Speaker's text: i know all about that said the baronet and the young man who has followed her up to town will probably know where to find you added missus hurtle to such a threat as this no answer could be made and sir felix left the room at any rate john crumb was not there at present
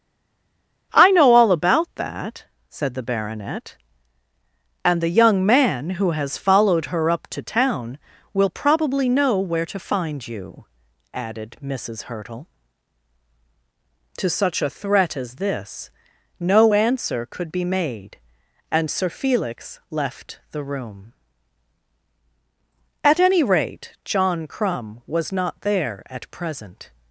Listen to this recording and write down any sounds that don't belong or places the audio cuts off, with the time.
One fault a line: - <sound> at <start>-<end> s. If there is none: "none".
none